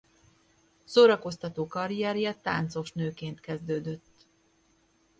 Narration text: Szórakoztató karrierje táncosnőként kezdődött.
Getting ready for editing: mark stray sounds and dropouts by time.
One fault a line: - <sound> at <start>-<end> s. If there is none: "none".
none